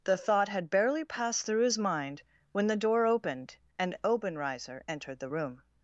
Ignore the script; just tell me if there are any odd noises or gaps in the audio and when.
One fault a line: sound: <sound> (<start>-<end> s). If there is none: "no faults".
no faults